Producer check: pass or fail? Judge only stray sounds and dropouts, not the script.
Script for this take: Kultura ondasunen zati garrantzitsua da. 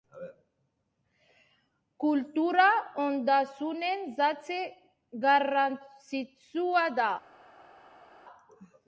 pass